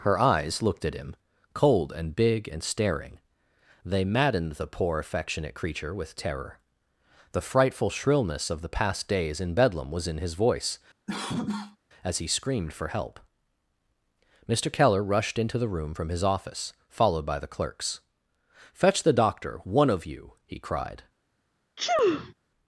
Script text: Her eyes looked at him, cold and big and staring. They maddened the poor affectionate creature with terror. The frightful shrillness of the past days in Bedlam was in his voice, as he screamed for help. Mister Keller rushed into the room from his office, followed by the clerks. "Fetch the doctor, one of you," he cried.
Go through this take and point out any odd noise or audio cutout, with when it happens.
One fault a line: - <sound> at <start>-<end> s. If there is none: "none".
- cough at 11.1-11.8 s
- sneeze at 21.8-22.3 s